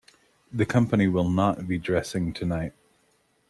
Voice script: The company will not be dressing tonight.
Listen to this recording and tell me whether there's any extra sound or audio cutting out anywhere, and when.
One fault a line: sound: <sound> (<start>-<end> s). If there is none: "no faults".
no faults